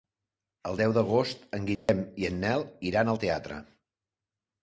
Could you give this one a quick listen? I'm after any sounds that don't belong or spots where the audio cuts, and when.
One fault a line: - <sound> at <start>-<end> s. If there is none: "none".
- dropout at 1.8-1.9 s